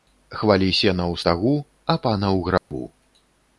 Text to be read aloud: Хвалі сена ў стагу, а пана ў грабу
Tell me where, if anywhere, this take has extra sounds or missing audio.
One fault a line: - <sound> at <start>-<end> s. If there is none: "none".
- dropout at 2.6-2.7 s